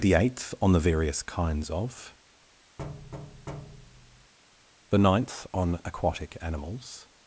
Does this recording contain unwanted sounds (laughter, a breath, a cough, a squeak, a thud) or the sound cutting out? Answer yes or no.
yes